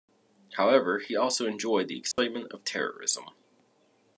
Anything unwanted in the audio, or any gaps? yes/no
yes